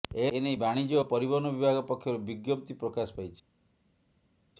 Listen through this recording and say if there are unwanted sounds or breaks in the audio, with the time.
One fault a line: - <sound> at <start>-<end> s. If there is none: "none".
none